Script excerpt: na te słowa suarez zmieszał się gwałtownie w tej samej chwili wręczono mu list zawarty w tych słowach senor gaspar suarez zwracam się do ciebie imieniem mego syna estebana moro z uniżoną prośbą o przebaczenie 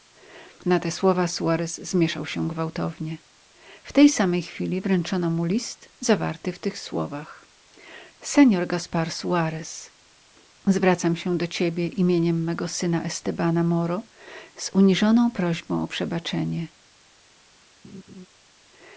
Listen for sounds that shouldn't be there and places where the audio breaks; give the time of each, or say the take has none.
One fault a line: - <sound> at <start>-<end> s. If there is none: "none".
- laugh at 17.8-18.3 s